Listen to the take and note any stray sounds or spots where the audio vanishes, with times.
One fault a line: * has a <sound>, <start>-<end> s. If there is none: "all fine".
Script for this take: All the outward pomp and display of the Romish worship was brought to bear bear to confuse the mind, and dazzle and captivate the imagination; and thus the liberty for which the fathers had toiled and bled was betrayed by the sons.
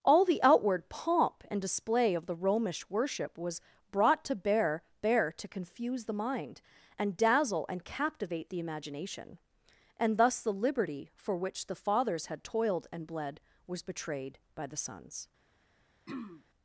* has a throat clearing, 16.1-16.4 s